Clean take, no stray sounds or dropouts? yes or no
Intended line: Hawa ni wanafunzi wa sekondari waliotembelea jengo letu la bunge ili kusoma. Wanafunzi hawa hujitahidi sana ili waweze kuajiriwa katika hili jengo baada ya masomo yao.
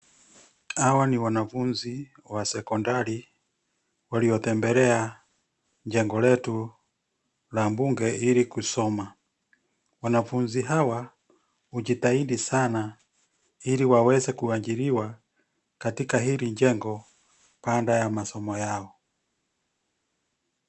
yes